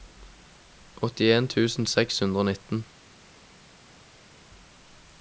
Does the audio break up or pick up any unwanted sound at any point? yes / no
no